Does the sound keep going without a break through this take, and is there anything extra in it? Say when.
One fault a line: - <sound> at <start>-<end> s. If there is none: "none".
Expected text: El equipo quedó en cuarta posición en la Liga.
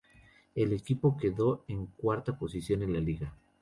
none